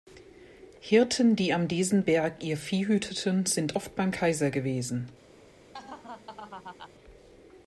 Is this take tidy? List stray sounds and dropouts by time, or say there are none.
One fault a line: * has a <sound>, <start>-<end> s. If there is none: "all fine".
* has a laugh, 5.7-6.9 s